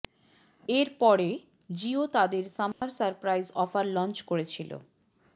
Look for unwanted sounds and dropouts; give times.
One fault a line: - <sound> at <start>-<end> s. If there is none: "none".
- dropout at 2.7-2.8 s